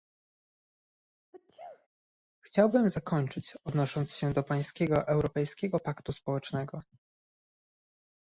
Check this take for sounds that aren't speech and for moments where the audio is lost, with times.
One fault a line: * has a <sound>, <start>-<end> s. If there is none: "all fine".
* has a sneeze, 1.3-1.9 s